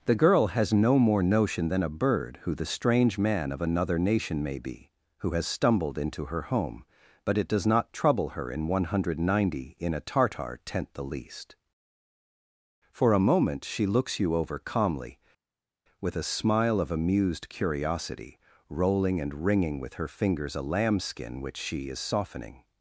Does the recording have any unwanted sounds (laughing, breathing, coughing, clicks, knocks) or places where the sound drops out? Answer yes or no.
no